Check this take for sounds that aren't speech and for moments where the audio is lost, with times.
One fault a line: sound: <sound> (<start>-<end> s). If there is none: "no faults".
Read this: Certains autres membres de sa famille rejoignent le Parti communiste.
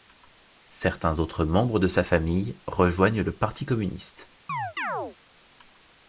sound: chirp (4.5-5.2 s)